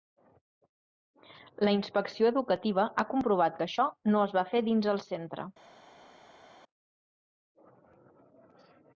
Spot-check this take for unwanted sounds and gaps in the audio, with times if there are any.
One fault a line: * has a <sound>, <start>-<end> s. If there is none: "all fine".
all fine